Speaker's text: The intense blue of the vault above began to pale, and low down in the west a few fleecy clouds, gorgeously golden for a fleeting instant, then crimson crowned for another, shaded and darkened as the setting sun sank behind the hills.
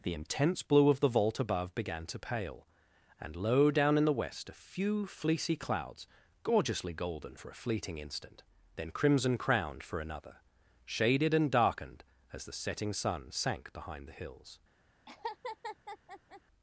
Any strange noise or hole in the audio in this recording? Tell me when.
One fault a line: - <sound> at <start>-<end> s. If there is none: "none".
- laugh at 15.1-16.4 s